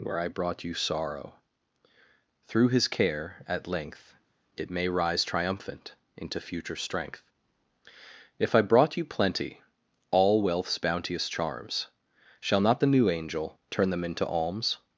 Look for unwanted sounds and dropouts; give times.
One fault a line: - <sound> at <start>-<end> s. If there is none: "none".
none